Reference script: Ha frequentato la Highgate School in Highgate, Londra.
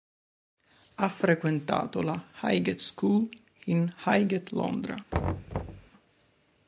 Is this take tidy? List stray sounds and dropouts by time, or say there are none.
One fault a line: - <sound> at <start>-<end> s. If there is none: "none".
- thud at 5.1-5.9 s